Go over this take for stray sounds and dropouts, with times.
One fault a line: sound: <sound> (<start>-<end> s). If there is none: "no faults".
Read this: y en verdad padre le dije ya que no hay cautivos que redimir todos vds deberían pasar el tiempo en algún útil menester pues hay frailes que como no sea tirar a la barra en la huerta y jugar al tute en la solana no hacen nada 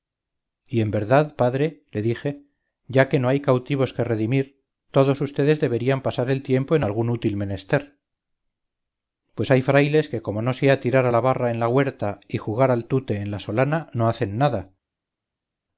no faults